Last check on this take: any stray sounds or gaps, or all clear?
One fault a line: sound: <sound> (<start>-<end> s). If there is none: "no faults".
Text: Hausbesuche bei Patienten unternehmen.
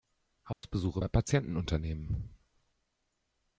sound: dropout (0.5-0.6 s)